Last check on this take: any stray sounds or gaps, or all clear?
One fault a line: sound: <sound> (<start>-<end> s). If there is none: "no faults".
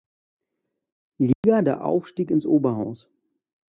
sound: dropout (1.3-1.4 s)